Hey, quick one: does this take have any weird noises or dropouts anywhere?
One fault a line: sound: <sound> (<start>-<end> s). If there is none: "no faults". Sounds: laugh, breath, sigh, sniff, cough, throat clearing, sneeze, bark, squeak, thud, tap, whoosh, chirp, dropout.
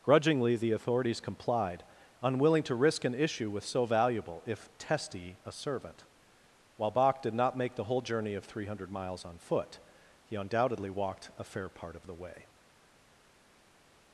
no faults